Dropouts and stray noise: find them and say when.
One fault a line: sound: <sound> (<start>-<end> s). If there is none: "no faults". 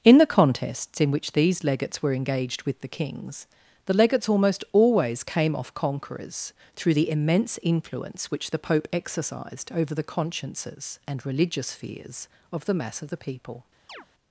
sound: chirp (13.9-14.1 s)